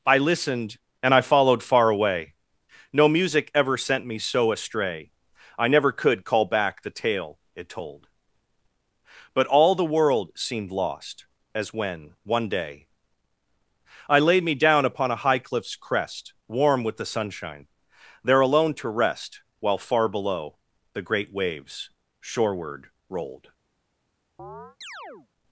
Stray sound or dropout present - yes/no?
yes